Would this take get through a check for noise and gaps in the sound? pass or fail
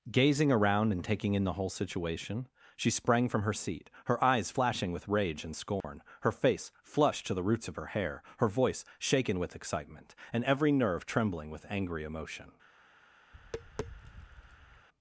fail